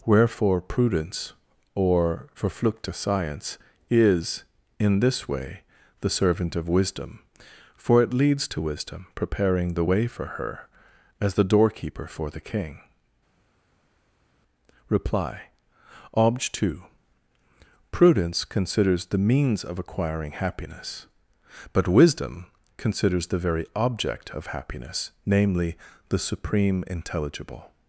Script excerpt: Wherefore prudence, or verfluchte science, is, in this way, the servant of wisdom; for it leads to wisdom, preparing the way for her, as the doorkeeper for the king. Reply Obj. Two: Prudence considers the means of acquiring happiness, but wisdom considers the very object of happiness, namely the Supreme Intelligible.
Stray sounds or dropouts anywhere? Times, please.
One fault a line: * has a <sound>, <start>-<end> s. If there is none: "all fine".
all fine